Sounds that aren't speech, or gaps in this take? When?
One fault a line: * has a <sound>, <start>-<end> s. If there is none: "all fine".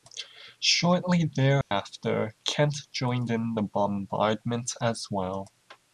* has a dropout, 1.6-1.7 s